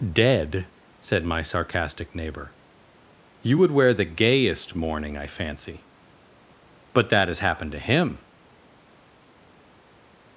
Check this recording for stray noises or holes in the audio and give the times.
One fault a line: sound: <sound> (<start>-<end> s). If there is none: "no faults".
no faults